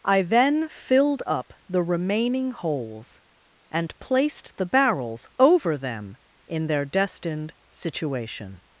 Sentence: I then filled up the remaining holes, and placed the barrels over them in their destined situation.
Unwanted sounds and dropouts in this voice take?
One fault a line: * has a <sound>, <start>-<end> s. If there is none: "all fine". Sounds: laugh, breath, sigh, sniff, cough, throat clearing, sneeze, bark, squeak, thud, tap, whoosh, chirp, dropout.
all fine